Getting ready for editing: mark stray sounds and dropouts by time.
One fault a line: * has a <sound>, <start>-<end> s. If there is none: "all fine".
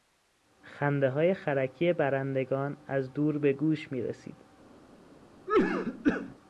* has a cough, 5.5-6.3 s